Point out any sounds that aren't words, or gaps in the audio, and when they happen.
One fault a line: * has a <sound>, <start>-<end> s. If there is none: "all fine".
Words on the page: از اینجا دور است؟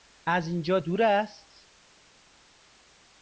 all fine